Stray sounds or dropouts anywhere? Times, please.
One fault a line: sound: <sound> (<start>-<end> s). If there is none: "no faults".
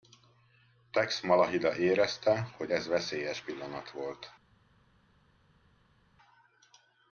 no faults